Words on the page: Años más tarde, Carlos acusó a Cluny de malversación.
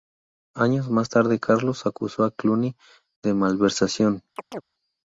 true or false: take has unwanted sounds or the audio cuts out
true